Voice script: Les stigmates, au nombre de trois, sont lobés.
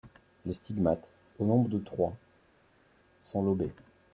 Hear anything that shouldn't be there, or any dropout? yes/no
no